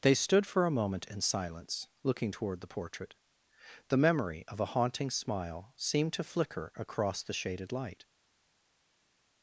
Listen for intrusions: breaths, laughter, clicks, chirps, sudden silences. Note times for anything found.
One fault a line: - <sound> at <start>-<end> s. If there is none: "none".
none